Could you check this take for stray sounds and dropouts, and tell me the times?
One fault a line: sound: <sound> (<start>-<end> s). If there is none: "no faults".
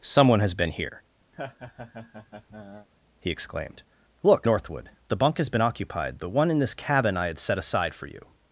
sound: laugh (1.3-2.9 s)